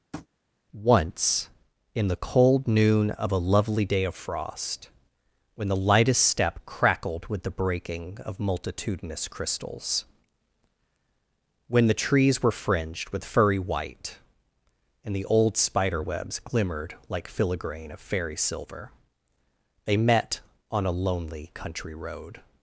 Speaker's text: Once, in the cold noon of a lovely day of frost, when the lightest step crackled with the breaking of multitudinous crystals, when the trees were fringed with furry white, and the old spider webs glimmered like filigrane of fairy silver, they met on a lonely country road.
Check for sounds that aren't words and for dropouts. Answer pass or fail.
fail